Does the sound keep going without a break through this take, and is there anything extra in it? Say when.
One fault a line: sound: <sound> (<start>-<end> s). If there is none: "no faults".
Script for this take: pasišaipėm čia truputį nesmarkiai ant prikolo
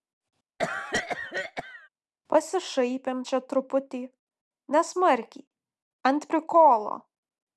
sound: cough (0.6-1.9 s)